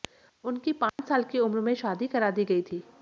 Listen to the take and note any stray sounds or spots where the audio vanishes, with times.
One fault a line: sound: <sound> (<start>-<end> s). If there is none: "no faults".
sound: dropout (0.9-1.0 s)